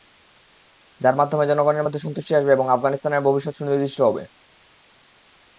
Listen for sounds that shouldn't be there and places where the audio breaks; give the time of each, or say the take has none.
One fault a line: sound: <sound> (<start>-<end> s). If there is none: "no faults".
no faults